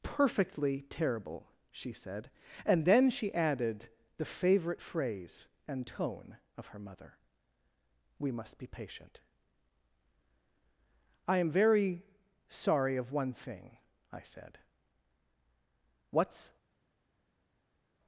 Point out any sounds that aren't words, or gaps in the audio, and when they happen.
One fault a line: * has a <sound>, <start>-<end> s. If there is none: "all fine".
all fine